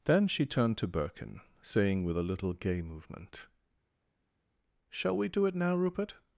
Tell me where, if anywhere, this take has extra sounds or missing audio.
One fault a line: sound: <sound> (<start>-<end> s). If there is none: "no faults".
no faults